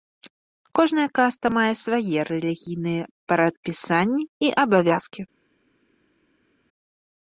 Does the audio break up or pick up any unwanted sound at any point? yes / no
no